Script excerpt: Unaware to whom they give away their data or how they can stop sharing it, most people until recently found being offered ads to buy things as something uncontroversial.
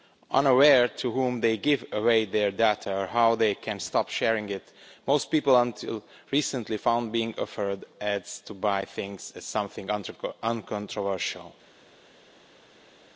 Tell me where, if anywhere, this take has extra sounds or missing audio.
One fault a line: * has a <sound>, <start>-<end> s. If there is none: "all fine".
all fine